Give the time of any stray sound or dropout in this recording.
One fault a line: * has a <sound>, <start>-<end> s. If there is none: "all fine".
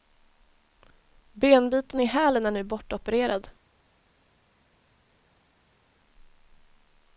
all fine